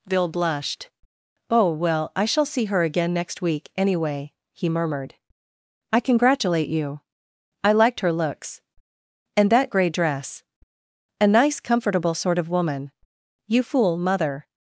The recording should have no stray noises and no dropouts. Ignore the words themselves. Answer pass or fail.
pass